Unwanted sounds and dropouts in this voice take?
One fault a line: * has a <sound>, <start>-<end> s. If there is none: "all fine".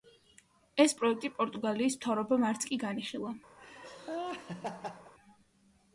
* has a laugh, 3.6-5.1 s